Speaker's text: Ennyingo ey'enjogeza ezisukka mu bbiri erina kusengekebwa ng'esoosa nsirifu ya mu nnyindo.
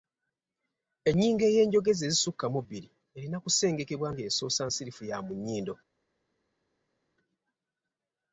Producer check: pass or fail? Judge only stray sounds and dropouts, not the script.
pass